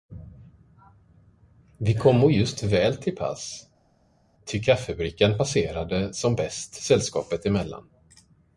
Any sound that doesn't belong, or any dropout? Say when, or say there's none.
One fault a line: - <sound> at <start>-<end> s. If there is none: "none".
none